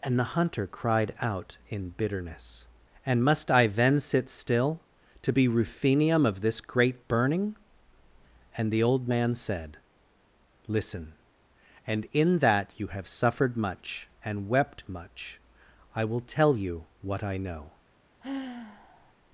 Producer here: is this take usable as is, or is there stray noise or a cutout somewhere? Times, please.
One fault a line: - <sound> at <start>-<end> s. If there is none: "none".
- sigh at 18.2-19.1 s